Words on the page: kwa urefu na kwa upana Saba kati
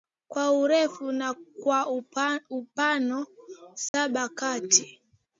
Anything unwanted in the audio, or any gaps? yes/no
yes